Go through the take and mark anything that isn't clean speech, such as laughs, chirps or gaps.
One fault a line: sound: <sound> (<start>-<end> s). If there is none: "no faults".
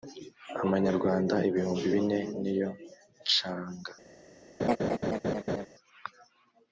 sound: laugh (4.6-5.7 s)